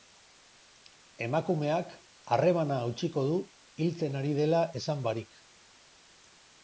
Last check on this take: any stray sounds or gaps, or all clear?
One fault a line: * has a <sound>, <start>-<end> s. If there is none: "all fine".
all fine